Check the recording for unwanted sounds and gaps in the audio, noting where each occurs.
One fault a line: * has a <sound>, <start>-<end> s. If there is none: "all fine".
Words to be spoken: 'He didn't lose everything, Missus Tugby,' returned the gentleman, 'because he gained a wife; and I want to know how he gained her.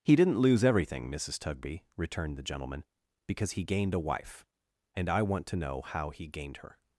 all fine